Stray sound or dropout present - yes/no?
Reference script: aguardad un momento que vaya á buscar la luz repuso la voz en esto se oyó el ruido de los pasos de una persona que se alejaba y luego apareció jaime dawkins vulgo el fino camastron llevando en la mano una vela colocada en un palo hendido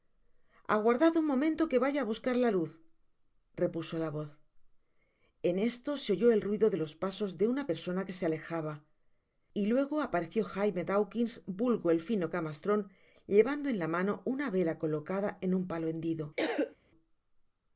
yes